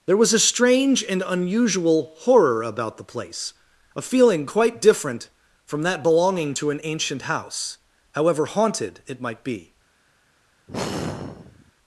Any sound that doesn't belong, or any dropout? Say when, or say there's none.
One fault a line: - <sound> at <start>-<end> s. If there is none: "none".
- sigh at 10.7-11.7 s